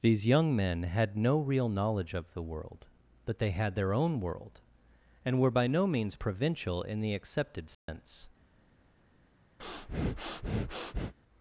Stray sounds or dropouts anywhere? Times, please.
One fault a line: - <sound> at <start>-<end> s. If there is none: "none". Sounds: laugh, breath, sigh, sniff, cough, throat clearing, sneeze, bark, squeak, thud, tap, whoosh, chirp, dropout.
- dropout at 7.7-7.9 s
- breath at 9.6-11.1 s